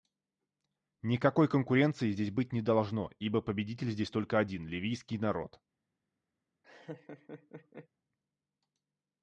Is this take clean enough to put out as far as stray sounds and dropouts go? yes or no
no